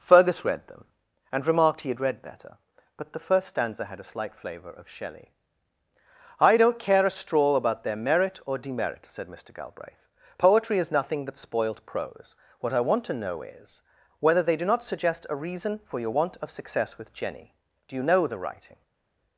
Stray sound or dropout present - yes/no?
no